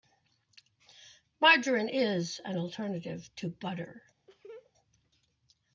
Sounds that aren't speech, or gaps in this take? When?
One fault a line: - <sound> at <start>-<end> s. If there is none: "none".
- laugh at 4.3-4.7 s